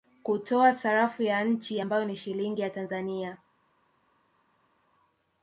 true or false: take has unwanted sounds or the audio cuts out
false